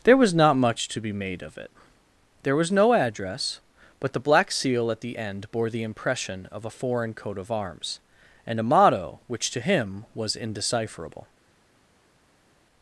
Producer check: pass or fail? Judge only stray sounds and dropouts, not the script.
pass